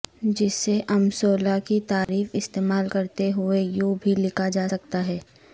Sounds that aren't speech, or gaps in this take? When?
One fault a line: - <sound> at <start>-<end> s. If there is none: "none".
- dropout at 2.0-2.1 s